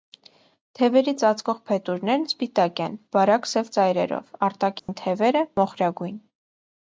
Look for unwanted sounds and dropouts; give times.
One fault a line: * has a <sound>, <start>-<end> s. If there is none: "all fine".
* has a dropout, 4.8-4.9 s